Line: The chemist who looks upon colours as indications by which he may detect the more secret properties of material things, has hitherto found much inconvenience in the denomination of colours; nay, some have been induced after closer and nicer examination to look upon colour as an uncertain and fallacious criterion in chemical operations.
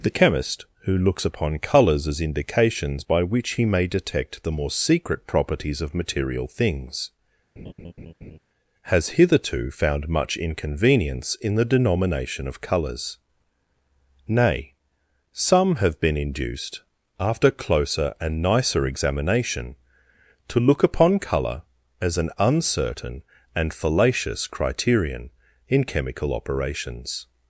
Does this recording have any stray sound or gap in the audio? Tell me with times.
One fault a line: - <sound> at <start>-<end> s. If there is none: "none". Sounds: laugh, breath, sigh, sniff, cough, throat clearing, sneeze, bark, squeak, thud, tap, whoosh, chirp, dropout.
- laugh at 7.6-8.4 s